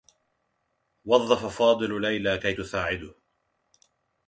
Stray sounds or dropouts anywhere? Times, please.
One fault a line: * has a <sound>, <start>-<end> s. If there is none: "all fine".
all fine